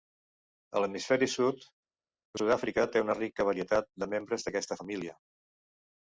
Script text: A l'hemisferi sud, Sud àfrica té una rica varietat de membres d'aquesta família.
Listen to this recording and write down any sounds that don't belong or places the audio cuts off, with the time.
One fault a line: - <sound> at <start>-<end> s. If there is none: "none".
none